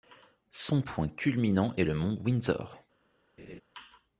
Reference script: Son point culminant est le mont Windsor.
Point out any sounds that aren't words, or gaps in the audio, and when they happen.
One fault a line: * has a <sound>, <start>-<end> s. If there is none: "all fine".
* has a laugh, 3.4-3.6 s